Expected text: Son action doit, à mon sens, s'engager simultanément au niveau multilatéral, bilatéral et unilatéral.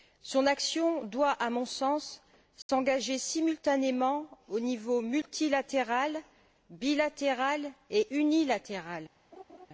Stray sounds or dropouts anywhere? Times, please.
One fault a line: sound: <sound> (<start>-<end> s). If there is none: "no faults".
sound: dropout (2.6-2.7 s)
sound: laugh (9.3-9.7 s)